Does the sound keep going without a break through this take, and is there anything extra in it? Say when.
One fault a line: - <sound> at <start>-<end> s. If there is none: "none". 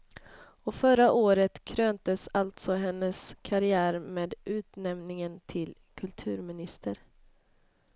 none